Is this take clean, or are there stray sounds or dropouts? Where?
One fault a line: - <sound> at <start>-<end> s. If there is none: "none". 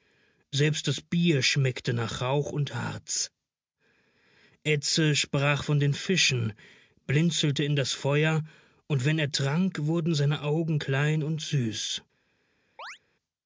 - chirp at 12.8-13.0 s